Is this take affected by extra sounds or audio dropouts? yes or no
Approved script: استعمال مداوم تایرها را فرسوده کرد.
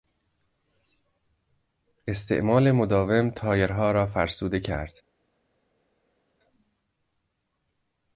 no